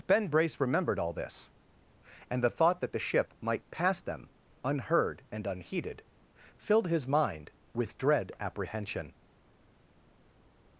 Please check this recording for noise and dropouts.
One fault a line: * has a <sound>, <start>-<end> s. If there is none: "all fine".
all fine